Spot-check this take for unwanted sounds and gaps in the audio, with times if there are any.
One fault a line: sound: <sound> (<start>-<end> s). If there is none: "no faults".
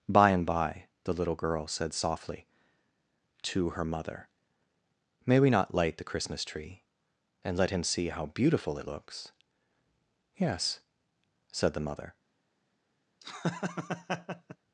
sound: laugh (13.2-14.6 s)